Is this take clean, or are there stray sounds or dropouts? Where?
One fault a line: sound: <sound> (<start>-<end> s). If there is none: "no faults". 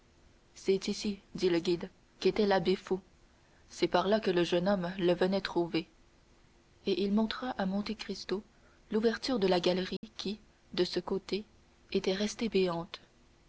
sound: dropout (10.0-10.0 s)